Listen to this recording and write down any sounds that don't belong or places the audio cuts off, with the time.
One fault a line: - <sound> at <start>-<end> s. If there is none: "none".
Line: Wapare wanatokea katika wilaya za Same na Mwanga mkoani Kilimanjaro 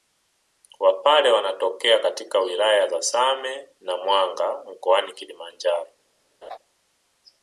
- laugh at 6.4-6.6 s